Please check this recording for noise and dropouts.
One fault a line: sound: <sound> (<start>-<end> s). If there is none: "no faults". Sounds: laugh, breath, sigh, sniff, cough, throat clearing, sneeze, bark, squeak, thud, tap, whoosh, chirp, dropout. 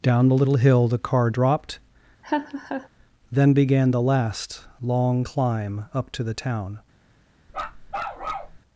sound: laugh (2.2-2.9 s)
sound: bark (7.5-8.6 s)